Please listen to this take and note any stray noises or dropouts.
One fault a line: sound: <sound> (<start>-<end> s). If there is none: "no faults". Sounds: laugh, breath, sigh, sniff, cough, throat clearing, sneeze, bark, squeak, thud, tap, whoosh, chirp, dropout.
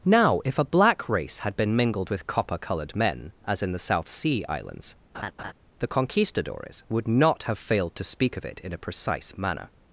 sound: laugh (5.1-5.5 s)